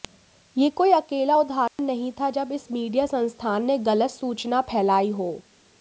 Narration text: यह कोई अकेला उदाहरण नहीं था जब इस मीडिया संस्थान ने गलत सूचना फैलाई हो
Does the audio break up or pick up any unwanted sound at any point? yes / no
yes